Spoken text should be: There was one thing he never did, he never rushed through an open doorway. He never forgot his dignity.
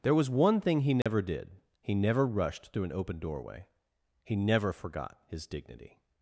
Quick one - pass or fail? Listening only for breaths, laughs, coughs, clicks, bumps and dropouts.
fail